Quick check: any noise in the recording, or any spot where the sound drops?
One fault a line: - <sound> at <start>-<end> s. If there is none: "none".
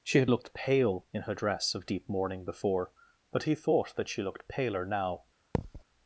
- thud at 5.5-5.8 s